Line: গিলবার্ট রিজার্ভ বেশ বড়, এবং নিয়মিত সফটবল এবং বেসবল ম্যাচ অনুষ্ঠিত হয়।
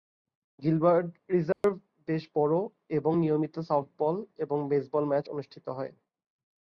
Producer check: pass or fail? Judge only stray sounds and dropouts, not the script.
fail